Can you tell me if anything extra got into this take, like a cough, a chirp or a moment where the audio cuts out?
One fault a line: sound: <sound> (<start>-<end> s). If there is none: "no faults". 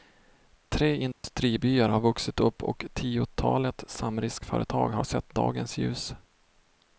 sound: dropout (1.1-1.2 s)